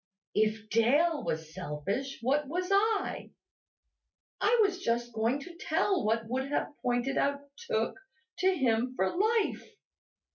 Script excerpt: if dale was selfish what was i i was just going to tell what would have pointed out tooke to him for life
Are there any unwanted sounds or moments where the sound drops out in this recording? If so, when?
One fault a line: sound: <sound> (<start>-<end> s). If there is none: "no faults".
no faults